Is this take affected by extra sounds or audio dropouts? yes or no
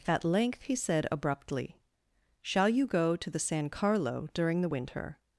no